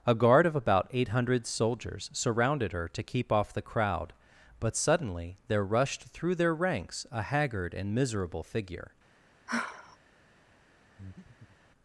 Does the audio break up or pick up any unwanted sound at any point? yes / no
yes